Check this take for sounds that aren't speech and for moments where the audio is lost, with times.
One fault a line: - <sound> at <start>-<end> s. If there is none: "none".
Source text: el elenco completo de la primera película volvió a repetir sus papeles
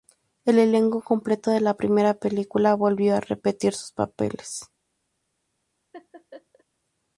- laugh at 5.9-6.6 s